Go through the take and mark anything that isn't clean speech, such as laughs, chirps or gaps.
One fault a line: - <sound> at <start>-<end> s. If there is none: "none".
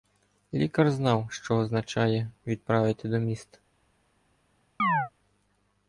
- chirp at 4.8-5.1 s